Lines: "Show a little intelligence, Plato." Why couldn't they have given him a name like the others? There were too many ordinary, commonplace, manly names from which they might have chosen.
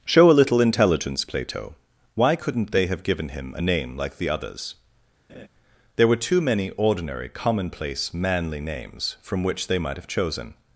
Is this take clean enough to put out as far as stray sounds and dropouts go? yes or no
no